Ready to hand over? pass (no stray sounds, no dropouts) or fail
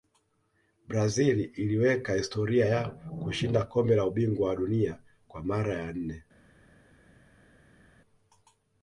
pass